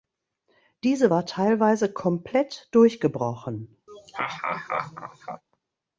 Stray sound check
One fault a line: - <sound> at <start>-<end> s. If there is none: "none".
- laugh at 3.9-5.4 s